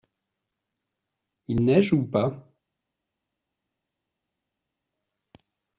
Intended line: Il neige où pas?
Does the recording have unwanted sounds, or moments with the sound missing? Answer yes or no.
no